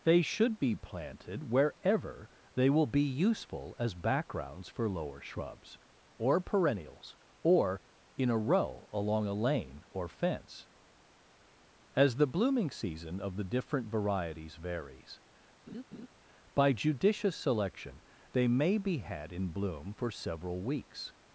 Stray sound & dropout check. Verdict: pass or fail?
fail